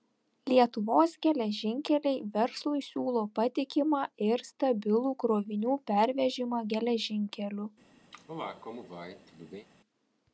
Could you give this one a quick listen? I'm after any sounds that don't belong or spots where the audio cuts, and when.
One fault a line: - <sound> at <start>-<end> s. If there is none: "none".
- cough at 8.1-9.7 s